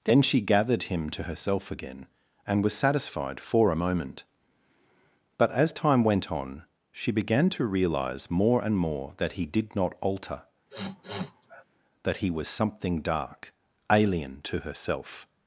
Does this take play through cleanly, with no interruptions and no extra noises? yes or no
no